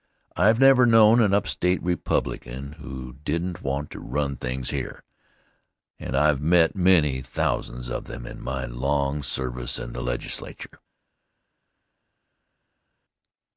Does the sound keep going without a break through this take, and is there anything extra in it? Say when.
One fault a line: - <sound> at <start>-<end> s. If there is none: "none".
none